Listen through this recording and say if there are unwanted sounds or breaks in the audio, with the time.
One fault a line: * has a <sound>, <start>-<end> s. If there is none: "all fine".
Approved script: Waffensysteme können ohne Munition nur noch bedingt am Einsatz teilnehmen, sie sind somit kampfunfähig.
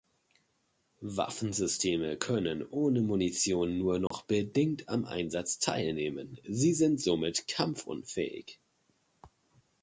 * has a dropout, 4.1-4.1 s